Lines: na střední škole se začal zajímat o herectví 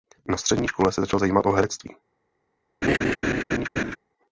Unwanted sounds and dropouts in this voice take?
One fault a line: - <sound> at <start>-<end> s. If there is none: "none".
- laugh at 2.8-4.0 s